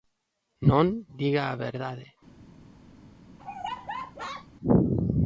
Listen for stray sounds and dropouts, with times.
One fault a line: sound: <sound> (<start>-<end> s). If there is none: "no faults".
sound: laugh (3.4-4.5 s)